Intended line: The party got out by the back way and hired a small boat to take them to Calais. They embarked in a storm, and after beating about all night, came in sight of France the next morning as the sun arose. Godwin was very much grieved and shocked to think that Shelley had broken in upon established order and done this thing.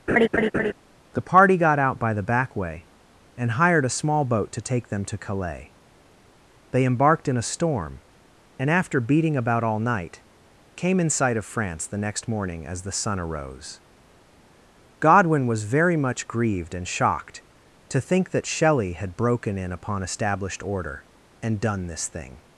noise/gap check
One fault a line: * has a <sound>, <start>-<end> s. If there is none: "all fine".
* has a laugh, 0.1-0.7 s